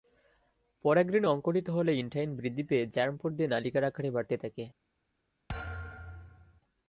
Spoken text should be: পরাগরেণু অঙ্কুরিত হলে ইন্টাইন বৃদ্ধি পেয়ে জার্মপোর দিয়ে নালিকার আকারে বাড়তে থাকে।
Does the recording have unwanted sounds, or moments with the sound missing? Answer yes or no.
yes